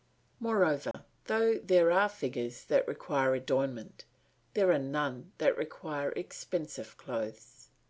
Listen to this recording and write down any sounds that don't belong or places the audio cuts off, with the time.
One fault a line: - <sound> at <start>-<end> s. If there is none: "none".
- dropout at 0.9-0.9 s